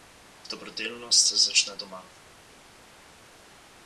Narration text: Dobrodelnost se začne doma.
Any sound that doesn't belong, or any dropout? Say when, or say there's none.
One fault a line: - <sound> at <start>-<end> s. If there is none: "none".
none